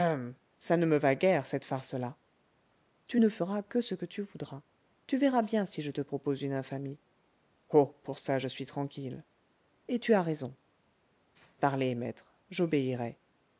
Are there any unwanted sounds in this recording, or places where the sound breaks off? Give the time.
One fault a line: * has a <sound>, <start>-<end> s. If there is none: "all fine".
all fine